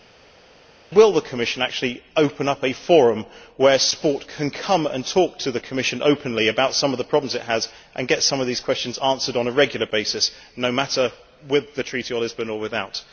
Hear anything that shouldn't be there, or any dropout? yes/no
no